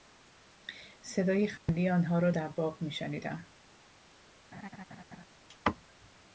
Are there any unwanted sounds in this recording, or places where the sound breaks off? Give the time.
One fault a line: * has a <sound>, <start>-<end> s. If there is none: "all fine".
* has a dropout, 1.6-1.7 s
* has a laugh, 4.5-5.3 s